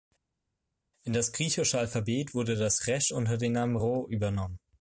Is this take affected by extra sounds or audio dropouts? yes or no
no